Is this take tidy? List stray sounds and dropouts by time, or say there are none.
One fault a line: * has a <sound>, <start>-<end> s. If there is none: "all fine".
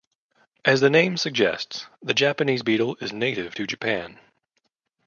all fine